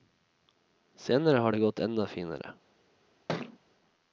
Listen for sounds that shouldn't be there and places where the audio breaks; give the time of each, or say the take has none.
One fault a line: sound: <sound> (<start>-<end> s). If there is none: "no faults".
sound: thud (3.3-3.6 s)